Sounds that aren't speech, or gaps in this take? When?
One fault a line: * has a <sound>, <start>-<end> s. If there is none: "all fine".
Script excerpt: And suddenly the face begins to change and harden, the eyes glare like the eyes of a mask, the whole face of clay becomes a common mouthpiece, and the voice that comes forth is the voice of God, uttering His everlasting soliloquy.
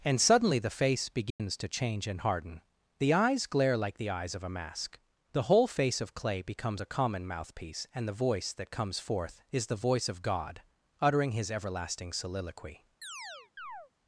* has a dropout, 1.3-1.4 s
* has a chirp, 13.0-13.9 s